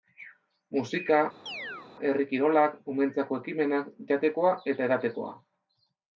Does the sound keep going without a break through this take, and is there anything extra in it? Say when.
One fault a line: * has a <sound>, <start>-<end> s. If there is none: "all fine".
* has a chirp, 1.5-1.9 s